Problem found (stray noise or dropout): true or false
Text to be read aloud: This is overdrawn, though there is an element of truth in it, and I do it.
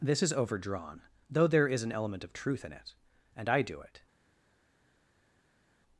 false